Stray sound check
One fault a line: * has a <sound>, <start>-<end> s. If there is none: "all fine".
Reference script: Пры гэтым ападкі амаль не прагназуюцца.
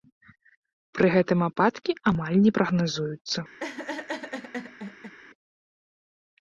* has a laugh, 3.6-5.1 s